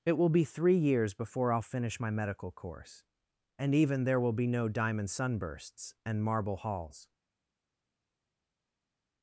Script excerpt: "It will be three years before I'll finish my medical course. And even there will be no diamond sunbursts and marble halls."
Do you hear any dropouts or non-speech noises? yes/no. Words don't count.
no